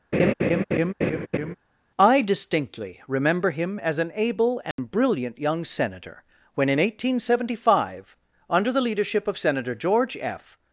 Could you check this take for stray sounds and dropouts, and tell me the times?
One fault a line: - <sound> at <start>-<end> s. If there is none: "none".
- laugh at 0.1-1.6 s
- dropout at 4.7-4.8 s